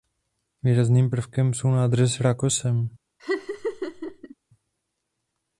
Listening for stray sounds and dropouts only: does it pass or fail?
fail